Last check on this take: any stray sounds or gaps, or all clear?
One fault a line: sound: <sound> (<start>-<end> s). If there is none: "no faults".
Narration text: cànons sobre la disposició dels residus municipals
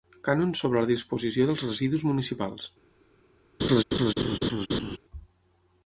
sound: laugh (3.6-5.0 s)